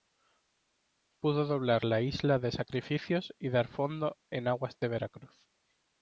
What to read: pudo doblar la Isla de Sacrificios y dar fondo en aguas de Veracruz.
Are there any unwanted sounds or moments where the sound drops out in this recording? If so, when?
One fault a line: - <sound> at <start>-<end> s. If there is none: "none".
none